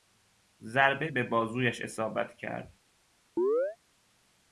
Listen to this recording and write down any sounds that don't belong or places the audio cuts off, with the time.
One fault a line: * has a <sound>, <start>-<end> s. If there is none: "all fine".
* has a chirp, 3.4-3.8 s